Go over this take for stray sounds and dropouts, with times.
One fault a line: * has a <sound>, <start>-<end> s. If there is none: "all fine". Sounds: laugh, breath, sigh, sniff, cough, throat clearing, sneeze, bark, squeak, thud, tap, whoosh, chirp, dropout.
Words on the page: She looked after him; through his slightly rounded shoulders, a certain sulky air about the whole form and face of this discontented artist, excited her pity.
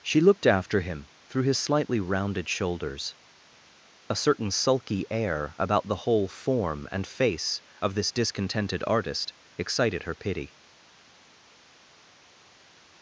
all fine